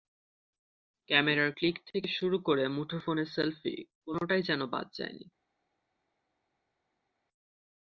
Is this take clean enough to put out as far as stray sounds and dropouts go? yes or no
yes